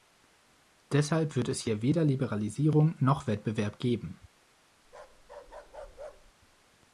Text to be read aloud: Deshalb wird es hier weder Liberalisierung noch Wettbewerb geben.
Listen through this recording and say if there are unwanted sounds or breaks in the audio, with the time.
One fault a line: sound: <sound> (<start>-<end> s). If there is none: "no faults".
sound: bark (4.8-6.3 s)